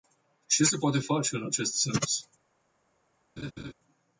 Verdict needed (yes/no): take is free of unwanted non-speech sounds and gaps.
no